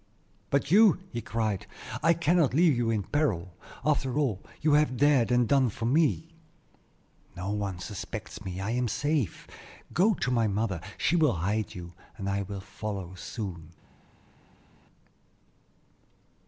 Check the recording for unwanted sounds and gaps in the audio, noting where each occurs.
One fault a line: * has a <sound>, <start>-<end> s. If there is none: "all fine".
all fine